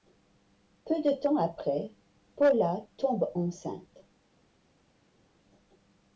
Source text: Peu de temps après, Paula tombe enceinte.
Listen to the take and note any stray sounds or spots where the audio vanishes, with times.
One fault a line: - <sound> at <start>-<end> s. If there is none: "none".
none